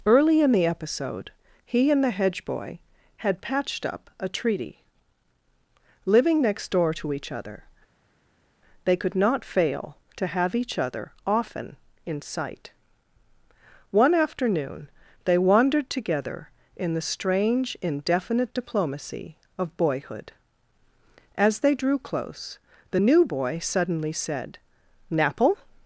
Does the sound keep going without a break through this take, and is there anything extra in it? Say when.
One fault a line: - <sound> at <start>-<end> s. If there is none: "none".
none